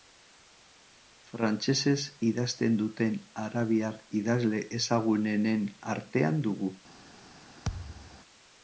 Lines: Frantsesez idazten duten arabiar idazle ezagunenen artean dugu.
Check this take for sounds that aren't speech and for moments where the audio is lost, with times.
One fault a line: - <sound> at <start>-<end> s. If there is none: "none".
- thud at 7.7-8.2 s